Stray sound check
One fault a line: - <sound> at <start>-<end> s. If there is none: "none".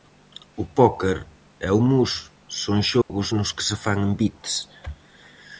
- dropout at 3.0-3.1 s